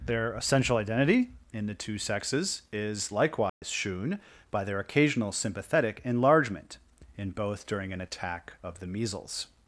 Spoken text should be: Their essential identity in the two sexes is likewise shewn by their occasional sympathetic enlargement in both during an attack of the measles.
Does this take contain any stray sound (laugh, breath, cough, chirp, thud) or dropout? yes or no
yes